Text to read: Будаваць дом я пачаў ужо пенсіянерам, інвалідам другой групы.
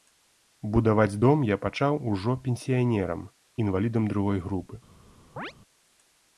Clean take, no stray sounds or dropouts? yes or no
no